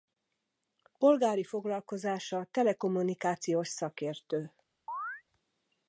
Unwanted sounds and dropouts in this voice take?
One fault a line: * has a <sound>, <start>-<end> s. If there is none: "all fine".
* has a chirp, 4.9-5.2 s